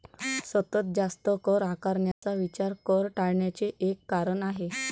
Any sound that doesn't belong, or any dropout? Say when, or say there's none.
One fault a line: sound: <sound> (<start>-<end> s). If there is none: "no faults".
sound: dropout (2.1-2.2 s)